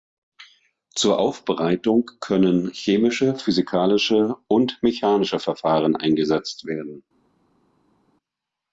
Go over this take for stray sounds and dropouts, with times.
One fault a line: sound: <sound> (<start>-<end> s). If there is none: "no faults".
no faults